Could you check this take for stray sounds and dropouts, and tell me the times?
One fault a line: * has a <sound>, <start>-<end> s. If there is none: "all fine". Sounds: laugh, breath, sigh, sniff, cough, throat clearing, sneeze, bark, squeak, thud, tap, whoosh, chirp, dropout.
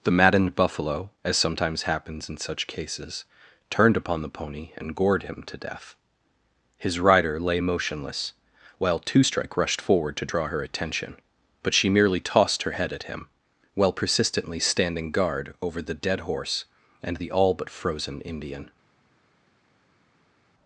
all fine